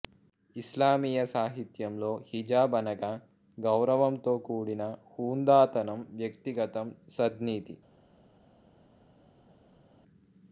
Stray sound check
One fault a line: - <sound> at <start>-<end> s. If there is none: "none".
none